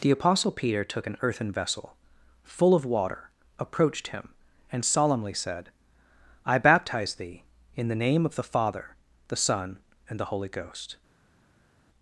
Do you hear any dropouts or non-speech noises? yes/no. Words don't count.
no